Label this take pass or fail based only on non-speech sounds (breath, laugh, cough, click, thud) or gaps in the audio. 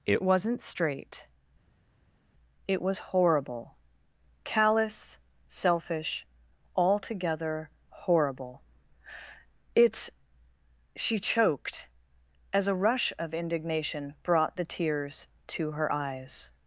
pass